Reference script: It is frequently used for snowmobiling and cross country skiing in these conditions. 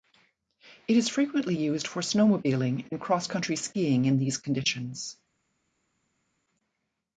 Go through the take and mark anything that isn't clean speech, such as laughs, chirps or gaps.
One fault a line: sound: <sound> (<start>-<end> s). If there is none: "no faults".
no faults